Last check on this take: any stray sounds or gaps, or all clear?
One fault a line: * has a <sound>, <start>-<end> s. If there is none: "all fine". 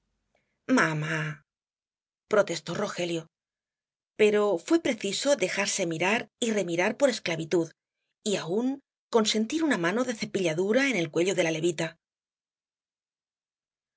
all fine